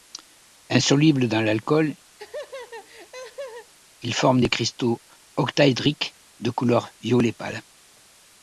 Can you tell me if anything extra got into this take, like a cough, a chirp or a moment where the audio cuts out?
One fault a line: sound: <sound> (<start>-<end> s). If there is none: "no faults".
sound: laugh (2.2-3.7 s)